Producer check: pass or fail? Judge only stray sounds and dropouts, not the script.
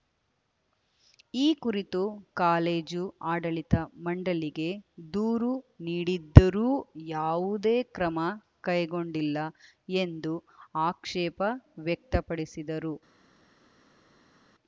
pass